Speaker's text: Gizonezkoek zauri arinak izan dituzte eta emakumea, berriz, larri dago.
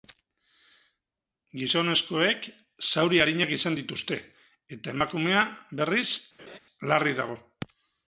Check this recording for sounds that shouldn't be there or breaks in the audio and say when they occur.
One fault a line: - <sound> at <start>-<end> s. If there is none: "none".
- laugh at 6.4-6.6 s